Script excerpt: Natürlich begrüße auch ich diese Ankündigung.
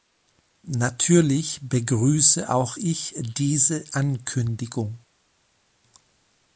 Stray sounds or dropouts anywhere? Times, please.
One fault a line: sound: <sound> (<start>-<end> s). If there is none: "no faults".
no faults